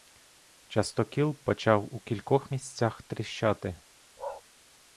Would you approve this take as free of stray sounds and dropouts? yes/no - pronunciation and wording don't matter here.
no